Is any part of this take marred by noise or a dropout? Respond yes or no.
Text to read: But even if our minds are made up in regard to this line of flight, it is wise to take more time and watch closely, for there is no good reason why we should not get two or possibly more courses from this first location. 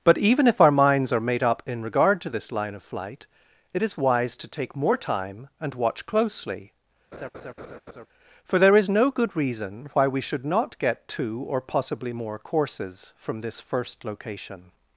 yes